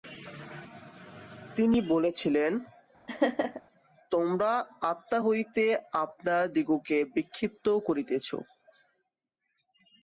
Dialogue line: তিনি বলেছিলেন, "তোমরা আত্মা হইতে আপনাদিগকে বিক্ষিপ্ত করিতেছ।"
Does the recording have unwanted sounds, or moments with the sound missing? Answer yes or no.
yes